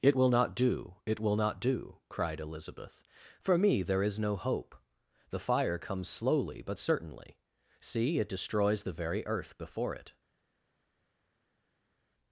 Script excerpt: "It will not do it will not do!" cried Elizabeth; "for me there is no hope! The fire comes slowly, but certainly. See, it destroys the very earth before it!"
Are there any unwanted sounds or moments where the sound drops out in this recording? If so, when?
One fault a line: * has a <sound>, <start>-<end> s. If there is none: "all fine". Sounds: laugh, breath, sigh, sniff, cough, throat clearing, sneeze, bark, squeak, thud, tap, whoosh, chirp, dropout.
all fine